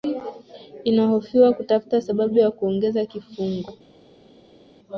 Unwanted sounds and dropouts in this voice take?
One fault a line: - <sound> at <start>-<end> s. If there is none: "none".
none